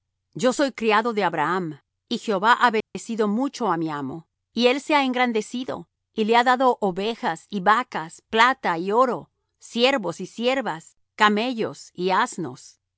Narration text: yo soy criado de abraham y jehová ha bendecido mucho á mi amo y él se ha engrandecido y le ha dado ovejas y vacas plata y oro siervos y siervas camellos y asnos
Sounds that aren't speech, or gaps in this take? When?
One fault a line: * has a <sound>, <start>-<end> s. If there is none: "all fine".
* has a dropout, 2.8-3.0 s